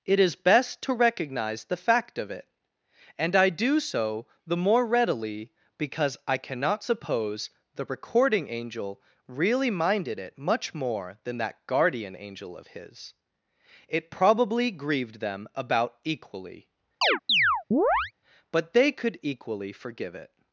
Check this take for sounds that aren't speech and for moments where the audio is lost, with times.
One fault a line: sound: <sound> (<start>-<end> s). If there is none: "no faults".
sound: chirp (17.0-18.1 s)